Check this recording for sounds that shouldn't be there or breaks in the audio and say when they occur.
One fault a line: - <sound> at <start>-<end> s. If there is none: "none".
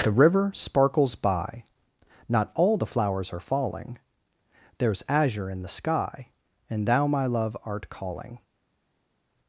none